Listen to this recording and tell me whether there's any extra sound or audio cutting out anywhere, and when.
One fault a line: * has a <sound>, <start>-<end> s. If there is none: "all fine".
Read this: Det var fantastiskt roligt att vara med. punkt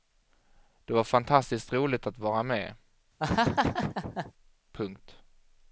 * has a laugh, 3.2-4.3 s